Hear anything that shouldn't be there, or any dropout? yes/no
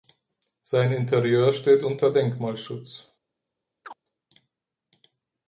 yes